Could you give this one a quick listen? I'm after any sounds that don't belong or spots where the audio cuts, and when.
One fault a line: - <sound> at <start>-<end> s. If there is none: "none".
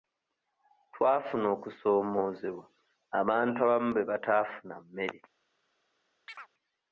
- chirp at 6.3-6.5 s